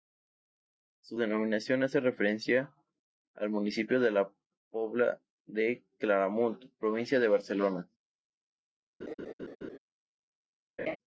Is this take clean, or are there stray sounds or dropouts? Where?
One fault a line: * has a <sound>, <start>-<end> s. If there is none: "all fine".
* has a laugh, 9.0-9.8 s
* has a laugh, 10.8-11.0 s